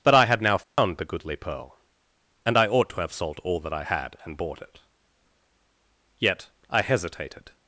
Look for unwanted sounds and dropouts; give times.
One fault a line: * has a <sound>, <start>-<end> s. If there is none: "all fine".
* has a dropout, 0.6-0.8 s